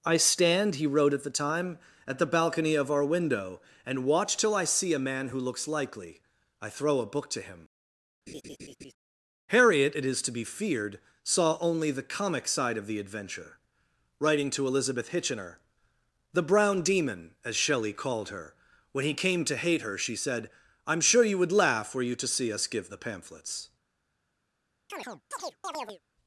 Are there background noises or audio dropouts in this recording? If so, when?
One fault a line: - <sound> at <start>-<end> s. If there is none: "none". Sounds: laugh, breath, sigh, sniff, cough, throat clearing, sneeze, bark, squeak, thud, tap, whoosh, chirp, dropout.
- laugh at 8.3-8.9 s
- chirp at 24.9-26.0 s